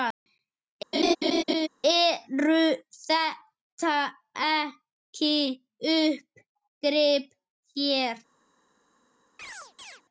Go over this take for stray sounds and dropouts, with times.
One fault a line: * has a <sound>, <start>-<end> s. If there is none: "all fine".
* has a laugh, 0.9-1.7 s
* has a chirp, 9.4-10.0 s